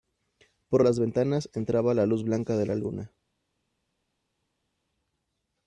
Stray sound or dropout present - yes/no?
no